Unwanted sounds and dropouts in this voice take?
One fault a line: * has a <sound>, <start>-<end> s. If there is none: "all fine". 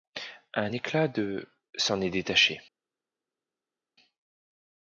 all fine